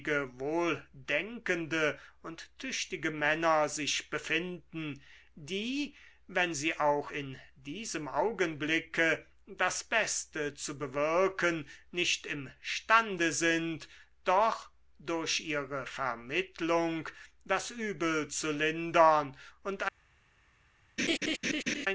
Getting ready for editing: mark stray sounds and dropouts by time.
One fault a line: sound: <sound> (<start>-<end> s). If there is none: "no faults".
sound: laugh (21.0-21.9 s)